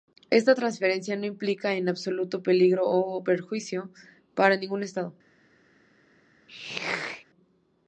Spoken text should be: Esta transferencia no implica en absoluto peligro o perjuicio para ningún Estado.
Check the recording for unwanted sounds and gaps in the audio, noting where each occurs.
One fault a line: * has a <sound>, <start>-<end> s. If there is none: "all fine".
* has a throat clearing, 6.5-7.3 s